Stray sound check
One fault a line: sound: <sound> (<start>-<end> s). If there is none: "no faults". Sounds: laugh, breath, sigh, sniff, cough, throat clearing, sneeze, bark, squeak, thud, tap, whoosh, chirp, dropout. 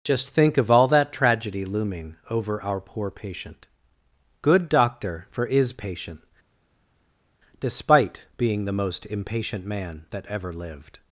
no faults